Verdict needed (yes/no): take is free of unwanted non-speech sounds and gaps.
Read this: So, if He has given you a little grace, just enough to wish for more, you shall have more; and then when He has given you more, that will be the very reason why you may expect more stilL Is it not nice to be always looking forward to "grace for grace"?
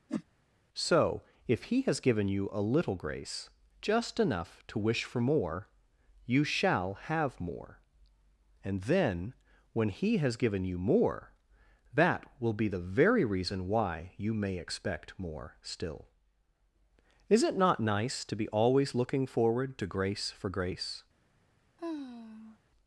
no